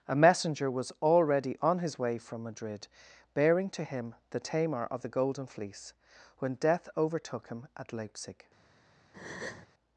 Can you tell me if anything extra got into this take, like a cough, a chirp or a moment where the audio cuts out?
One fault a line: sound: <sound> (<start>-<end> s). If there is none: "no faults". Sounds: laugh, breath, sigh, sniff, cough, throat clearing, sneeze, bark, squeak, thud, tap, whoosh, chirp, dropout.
sound: breath (9.1-9.7 s)